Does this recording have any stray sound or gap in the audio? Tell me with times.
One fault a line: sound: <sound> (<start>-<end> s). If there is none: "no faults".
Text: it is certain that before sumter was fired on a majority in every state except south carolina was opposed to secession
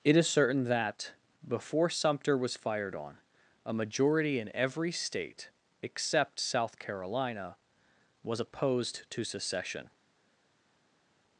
no faults